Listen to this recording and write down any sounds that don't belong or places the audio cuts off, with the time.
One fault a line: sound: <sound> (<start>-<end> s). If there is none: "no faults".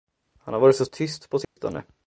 sound: dropout (1.4-1.6 s)